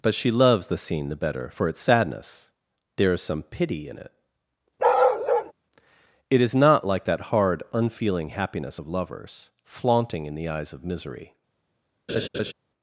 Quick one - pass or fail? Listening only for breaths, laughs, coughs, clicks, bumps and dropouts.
fail